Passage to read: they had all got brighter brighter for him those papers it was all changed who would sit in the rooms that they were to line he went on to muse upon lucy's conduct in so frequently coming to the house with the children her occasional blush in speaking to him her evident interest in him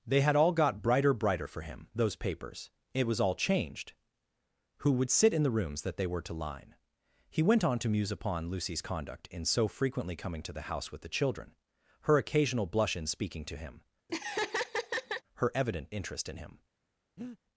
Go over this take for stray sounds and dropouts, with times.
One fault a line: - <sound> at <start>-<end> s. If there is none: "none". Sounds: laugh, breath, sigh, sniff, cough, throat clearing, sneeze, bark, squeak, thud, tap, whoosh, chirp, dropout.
- laugh at 14.1-15.2 s
- breath at 17.2-17.4 s